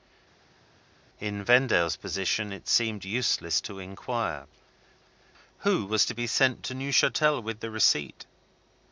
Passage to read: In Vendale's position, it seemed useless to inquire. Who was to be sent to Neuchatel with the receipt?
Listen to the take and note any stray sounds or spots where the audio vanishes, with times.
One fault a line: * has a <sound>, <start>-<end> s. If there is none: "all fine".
all fine